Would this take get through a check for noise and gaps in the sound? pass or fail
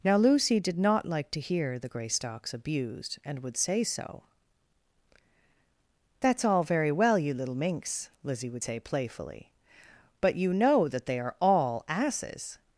pass